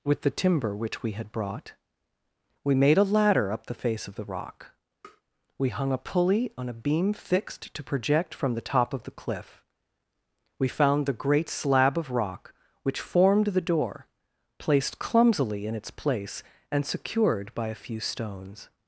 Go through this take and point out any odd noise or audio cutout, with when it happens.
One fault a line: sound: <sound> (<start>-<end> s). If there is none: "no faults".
sound: tap (5.0-5.2 s)